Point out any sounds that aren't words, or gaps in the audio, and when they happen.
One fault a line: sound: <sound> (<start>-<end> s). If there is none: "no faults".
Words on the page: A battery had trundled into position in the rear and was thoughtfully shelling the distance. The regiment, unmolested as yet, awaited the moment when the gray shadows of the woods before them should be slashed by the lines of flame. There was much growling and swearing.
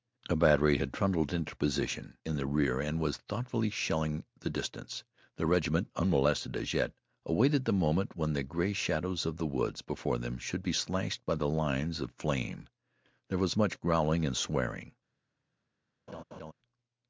sound: laugh (16.1-16.5 s)